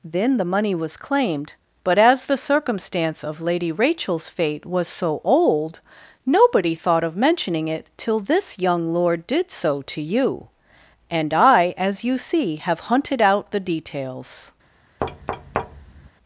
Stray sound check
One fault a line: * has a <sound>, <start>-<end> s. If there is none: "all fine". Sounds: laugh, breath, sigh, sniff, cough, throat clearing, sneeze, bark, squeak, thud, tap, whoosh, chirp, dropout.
* has a thud, 15.0-16.1 s